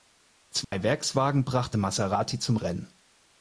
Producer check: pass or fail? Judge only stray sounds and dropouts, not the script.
fail